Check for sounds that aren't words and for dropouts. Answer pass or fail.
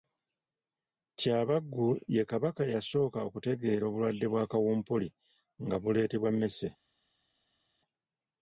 pass